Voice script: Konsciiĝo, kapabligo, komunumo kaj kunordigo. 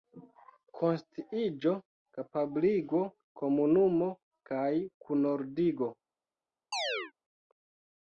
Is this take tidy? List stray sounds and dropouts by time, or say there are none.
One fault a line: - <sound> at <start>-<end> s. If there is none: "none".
- chirp at 6.7-7.1 s